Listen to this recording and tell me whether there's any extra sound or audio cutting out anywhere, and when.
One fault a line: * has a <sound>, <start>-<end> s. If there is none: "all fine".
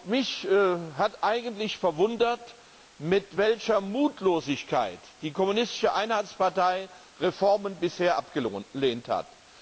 all fine